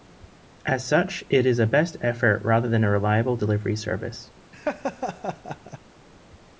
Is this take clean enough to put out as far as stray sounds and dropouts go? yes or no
no